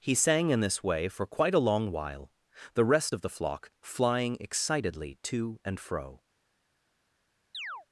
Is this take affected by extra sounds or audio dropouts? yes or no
yes